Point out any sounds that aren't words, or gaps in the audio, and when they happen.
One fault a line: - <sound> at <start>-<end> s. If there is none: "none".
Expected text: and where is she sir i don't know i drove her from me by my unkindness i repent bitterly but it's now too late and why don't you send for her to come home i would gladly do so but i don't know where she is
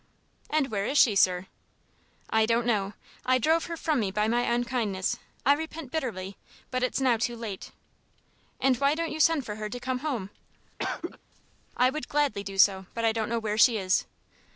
- cough at 10.8-11.2 s